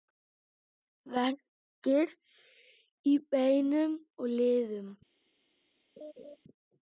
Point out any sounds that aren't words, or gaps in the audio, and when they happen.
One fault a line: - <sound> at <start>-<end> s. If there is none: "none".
- laugh at 6.0-6.4 s